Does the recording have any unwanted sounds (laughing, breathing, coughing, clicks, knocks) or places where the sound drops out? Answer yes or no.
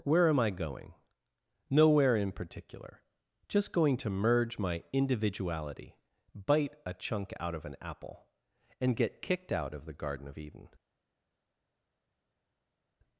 no